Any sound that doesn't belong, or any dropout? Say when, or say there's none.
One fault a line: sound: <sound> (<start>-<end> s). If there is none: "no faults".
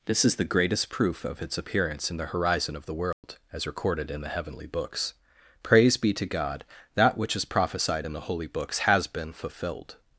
sound: dropout (3.1-3.2 s)